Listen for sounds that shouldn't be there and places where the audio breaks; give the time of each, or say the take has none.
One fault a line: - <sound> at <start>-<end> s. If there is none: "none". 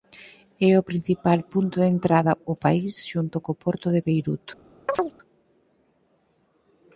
- chirp at 4.9-5.1 s